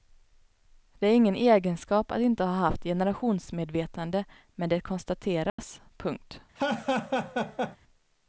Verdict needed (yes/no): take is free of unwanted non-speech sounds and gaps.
no